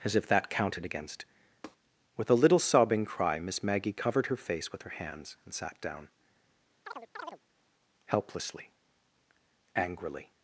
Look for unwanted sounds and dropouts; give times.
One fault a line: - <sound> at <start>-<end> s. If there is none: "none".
- tap at 1.6-1.8 s
- chirp at 6.8-7.4 s